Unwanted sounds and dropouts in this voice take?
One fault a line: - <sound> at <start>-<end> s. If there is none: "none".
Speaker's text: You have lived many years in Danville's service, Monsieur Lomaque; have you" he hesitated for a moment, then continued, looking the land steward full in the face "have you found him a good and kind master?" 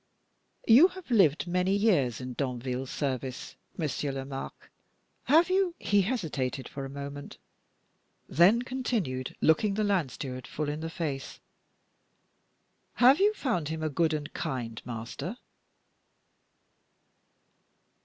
none